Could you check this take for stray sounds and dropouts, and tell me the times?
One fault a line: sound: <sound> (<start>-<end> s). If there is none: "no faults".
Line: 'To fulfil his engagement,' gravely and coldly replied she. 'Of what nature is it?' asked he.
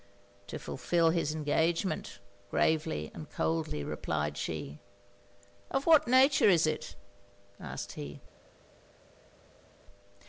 no faults